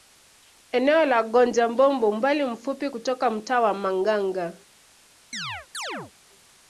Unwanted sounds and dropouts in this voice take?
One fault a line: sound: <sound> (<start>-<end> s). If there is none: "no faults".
sound: chirp (5.3-6.1 s)